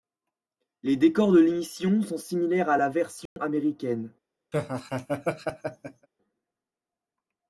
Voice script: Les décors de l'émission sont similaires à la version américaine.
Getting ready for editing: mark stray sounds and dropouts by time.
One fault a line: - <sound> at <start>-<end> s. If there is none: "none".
- dropout at 3.3-3.4 s
- laugh at 4.5-6.1 s